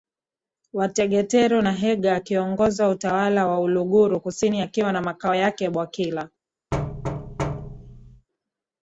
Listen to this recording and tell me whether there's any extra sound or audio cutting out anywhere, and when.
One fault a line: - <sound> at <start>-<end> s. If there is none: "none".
- thud at 6.7-8.3 s